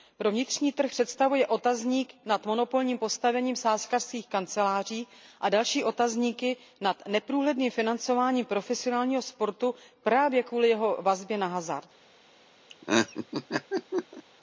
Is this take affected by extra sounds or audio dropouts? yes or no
yes